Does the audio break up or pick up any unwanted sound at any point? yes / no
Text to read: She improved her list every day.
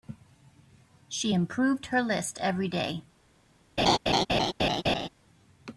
yes